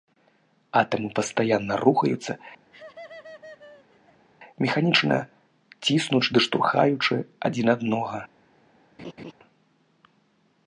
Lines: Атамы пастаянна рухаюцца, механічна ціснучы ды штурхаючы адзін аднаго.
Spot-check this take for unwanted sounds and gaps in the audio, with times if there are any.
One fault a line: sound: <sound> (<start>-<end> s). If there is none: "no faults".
sound: laugh (2.7-4.3 s)
sound: laugh (9.0-9.3 s)